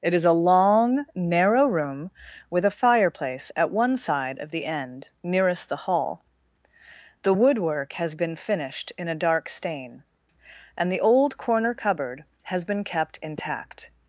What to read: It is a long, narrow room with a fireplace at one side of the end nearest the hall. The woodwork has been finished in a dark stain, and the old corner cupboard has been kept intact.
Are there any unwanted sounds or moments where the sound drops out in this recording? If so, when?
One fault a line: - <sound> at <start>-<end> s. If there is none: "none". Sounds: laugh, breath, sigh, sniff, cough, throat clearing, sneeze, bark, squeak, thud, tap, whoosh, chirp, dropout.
none